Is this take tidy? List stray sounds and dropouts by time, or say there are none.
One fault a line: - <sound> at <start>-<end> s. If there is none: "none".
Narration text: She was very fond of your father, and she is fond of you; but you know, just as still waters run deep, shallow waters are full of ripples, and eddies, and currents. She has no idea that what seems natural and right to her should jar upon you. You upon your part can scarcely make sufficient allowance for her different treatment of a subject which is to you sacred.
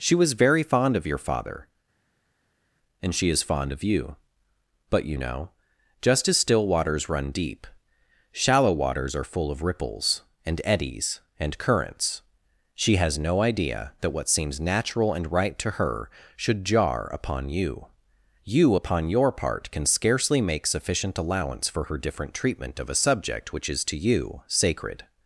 none